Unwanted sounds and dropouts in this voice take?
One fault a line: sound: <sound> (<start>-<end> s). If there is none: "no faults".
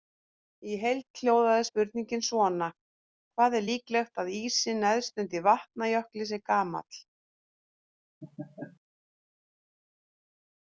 sound: laugh (8.2-8.8 s)